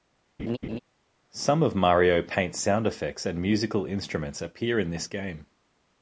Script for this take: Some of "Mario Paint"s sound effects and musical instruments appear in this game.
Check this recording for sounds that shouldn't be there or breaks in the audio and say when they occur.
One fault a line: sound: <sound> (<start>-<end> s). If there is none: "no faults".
sound: laugh (0.4-0.8 s)